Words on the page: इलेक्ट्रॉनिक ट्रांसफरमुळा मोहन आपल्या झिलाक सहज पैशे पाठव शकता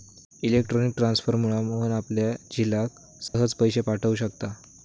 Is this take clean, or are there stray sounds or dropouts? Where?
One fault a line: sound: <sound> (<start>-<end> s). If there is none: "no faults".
sound: dropout (3.3-3.3 s)